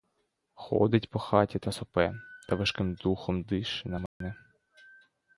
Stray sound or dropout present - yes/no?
yes